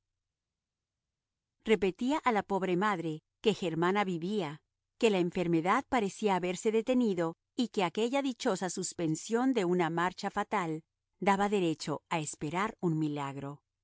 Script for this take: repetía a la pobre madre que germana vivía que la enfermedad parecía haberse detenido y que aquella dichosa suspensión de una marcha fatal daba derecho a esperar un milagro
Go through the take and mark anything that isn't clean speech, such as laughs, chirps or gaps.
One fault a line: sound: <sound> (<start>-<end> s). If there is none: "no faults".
no faults